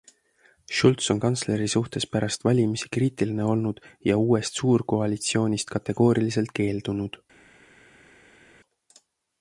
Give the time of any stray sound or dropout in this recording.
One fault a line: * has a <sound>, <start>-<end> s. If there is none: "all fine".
all fine